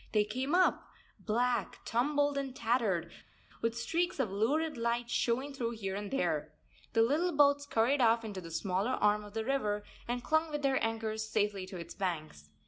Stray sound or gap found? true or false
false